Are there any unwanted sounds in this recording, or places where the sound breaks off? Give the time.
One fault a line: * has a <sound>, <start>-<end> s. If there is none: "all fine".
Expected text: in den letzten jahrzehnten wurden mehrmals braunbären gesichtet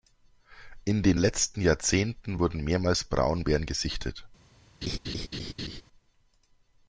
* has a laugh, 4.8-5.8 s